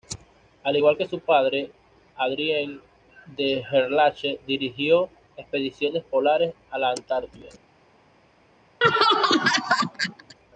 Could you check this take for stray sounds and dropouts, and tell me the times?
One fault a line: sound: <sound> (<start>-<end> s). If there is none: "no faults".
sound: laugh (8.8-10.4 s)